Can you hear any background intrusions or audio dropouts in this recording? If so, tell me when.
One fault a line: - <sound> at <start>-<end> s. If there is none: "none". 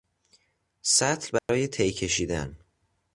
- dropout at 1.4-1.5 s